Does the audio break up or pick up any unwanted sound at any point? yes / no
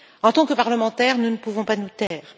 yes